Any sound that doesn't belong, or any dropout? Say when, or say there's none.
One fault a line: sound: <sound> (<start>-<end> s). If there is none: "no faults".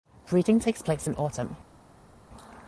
no faults